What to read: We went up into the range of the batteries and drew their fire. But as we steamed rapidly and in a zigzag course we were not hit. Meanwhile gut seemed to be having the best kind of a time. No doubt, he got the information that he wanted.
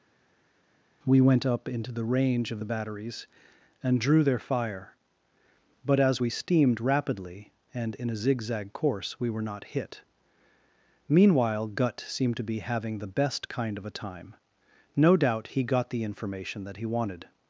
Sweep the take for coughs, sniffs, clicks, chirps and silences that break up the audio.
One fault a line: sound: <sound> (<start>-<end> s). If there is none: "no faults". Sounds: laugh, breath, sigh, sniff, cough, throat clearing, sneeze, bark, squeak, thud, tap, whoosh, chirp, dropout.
no faults